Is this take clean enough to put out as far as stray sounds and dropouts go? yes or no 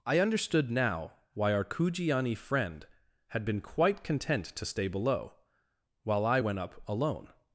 yes